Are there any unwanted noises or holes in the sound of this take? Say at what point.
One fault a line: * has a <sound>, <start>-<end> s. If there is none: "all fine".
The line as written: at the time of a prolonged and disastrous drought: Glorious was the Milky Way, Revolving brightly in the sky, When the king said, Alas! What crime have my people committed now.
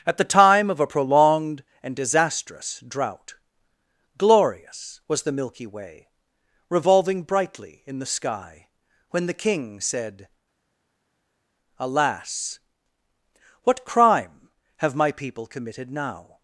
all fine